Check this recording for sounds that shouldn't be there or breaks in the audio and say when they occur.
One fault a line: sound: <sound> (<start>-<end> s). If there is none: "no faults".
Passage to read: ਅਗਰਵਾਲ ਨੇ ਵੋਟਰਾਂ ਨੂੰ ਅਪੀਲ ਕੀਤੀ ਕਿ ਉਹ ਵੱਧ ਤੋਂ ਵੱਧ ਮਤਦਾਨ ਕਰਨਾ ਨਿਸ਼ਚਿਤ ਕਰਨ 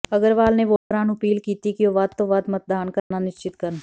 sound: dropout (0.8-0.9 s)
sound: dropout (3.0-3.1 s)